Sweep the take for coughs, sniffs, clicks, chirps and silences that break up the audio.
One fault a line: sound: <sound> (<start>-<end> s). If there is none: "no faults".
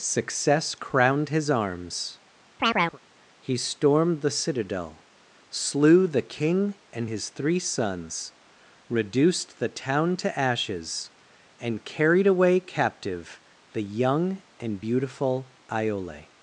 sound: chirp (2.6-3.0 s)